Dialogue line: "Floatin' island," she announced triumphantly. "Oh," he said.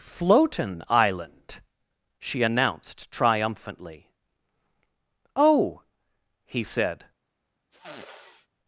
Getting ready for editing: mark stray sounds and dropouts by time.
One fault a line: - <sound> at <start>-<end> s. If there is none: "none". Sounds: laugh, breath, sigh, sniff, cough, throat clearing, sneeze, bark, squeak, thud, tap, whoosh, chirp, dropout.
- sniff at 7.7-8.5 s